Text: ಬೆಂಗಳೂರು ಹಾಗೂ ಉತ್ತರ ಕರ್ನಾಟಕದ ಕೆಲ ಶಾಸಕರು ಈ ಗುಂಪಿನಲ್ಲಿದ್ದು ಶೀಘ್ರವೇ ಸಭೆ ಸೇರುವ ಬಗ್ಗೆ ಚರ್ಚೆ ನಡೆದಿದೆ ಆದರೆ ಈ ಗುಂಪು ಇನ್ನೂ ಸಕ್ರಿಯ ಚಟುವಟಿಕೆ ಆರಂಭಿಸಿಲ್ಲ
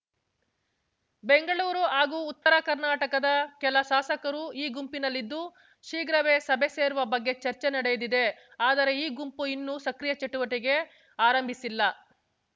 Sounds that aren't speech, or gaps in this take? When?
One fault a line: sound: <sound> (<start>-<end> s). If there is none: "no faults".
sound: dropout (2.4-2.5 s)